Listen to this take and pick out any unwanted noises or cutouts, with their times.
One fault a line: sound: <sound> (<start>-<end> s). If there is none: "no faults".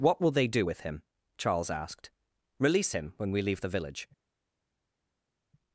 no faults